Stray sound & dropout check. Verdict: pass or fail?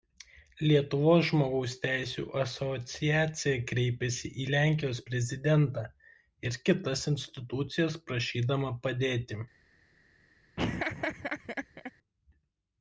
fail